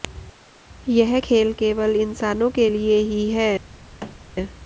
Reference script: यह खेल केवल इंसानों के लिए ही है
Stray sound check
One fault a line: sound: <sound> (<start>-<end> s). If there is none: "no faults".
sound: thud (4.0-4.2 s)